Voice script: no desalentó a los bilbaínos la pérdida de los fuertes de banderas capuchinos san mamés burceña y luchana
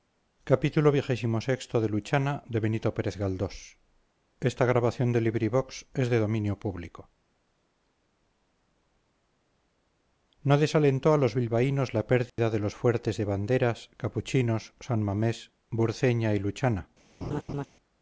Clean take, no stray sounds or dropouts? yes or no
no